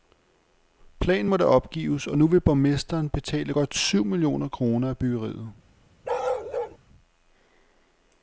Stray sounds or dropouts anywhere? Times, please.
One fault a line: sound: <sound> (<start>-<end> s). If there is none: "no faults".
sound: bark (6.0-6.8 s)